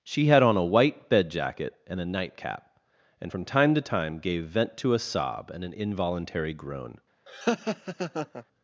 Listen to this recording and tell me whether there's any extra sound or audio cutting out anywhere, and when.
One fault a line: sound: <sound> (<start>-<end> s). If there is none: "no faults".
sound: laugh (7.3-8.4 s)